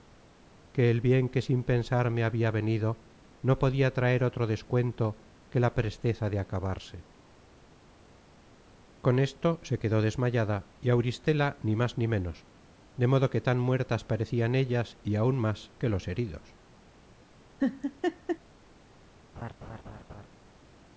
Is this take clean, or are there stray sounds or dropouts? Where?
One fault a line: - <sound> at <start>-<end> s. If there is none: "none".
- laugh at 17.6-18.4 s
- laugh at 19.4-20.3 s